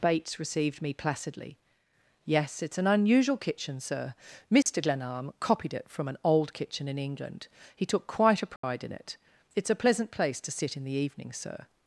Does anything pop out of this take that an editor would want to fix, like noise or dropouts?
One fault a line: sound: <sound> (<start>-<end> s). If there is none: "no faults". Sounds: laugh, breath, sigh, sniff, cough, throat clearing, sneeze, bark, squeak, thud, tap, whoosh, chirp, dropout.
sound: dropout (4.6-4.7 s)
sound: dropout (8.6-8.6 s)